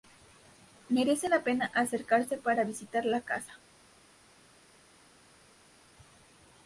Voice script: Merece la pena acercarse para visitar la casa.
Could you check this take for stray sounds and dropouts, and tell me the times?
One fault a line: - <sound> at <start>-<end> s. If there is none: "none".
none